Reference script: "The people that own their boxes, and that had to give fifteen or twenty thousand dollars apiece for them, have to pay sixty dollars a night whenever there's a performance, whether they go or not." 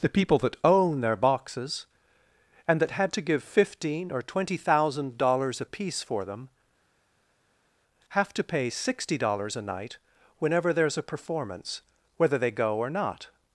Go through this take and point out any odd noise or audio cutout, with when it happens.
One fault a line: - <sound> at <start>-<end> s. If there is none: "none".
none